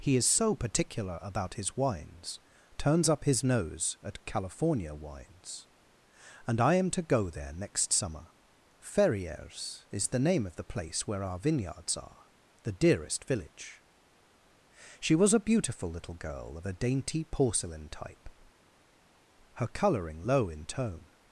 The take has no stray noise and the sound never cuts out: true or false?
true